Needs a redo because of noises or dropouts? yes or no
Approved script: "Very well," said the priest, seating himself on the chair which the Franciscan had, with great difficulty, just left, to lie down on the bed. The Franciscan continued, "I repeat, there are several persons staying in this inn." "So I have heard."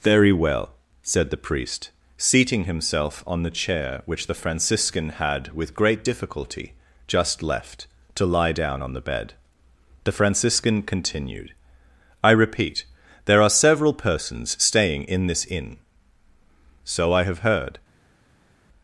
no